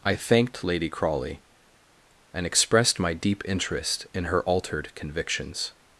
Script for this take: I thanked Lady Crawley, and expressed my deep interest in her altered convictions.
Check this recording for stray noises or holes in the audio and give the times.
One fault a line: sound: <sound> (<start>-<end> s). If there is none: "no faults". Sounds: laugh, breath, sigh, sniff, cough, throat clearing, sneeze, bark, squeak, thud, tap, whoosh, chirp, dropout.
no faults